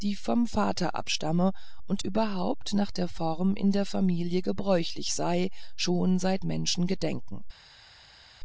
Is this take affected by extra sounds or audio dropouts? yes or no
no